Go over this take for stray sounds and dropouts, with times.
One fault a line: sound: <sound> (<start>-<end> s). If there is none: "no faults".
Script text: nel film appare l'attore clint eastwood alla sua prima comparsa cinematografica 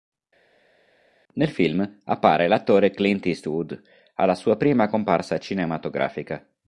no faults